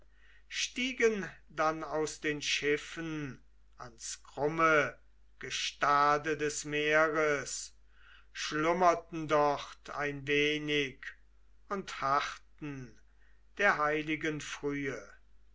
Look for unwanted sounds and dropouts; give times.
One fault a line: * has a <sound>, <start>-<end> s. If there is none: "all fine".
all fine